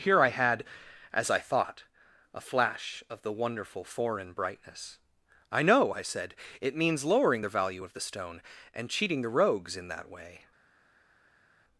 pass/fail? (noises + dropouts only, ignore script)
pass